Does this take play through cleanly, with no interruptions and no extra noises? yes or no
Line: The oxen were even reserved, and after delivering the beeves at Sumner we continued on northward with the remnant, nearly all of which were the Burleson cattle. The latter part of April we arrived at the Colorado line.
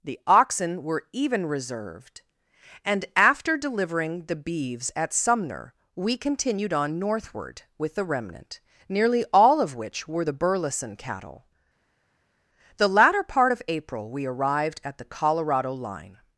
yes